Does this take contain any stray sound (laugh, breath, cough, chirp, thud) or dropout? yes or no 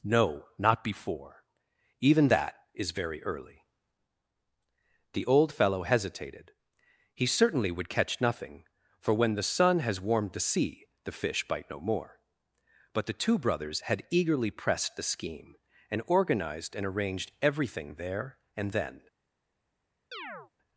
yes